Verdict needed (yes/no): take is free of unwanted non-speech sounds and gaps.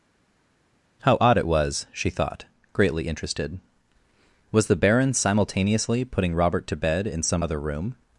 yes